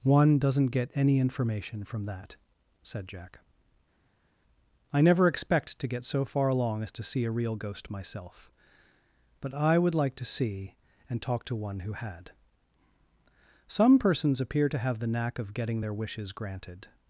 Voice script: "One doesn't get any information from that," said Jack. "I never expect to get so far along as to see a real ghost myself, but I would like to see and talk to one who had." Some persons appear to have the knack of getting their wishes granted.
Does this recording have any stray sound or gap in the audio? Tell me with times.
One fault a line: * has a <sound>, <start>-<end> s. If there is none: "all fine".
all fine